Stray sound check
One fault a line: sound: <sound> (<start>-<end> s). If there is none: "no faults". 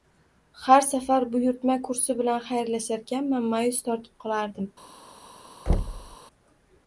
sound: thud (5.7-6.2 s)